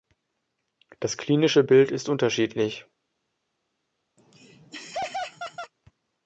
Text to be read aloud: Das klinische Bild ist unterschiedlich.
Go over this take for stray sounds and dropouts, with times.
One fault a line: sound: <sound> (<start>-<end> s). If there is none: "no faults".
sound: laugh (4.2-5.7 s)